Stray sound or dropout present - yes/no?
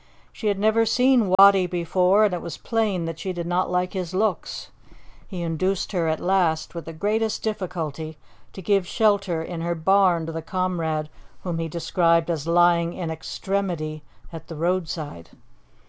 yes